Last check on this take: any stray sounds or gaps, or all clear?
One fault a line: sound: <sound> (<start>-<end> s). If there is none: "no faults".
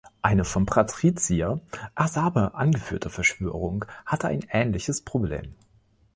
no faults